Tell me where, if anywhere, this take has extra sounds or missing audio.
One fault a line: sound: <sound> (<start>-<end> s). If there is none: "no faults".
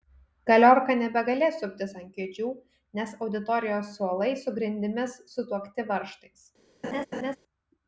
sound: laugh (6.8-7.4 s)